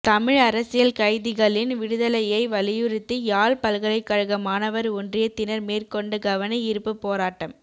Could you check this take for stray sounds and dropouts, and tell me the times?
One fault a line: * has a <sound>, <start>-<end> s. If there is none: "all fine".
all fine